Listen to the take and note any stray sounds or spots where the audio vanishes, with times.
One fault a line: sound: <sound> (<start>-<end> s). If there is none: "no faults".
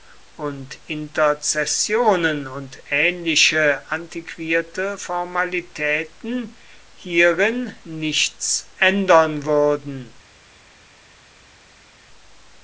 no faults